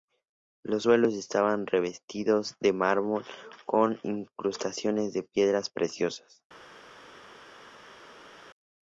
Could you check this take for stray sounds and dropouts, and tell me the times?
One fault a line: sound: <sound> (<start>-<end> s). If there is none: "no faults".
no faults